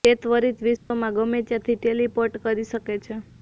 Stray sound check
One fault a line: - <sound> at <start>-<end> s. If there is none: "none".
- dropout at 0.8-0.9 s